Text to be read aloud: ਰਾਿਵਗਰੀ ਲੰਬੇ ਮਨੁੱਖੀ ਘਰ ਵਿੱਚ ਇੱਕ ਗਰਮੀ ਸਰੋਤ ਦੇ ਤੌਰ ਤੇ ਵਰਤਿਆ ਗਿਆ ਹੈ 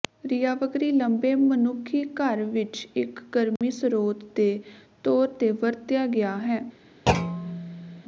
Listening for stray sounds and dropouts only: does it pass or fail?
fail